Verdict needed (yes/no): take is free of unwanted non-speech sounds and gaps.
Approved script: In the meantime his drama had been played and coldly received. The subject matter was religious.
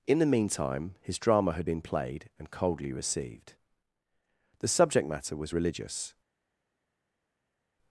yes